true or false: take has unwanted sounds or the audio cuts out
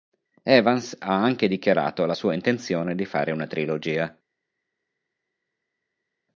false